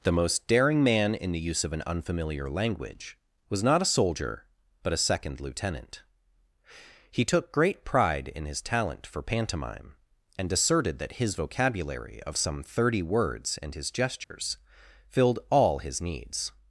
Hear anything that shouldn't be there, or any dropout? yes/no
yes